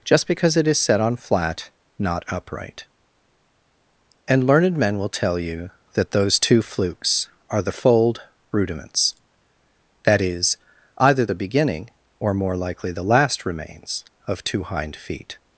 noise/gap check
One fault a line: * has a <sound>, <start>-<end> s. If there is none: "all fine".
all fine